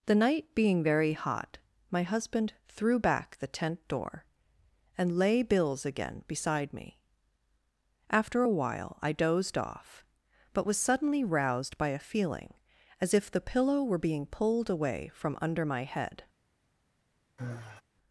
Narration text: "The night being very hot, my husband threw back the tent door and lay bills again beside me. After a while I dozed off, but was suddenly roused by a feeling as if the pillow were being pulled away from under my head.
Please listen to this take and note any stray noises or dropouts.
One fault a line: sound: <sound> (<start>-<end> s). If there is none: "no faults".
sound: sigh (17.4-17.8 s)